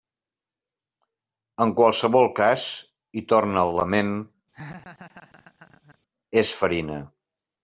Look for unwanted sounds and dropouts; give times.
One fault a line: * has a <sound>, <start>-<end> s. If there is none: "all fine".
* has a laugh, 4.5-6.0 s